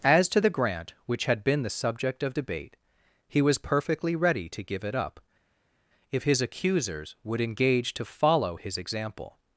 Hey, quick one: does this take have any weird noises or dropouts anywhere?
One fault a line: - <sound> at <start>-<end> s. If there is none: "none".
none